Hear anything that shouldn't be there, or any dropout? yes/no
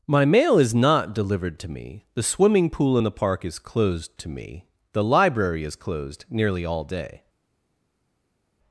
no